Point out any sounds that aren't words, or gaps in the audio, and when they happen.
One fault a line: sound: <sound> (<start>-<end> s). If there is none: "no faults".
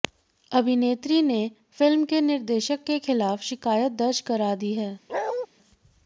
sound: bark (5.1-5.5 s)